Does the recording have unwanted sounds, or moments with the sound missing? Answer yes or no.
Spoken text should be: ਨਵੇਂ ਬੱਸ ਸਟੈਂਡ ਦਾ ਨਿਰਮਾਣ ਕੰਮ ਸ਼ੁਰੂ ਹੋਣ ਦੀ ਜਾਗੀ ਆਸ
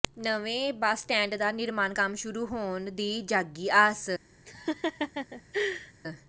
yes